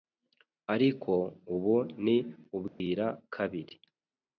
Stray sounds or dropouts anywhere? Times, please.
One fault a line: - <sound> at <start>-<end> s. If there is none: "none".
- dropout at 2.7-2.8 s